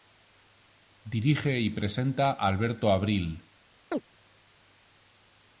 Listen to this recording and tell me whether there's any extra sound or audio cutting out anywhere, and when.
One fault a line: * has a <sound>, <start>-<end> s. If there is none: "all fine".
* has a chirp, 3.9-4.0 s